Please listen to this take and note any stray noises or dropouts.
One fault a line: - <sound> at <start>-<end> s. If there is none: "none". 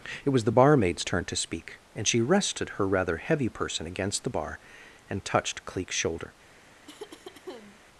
- cough at 6.9-7.8 s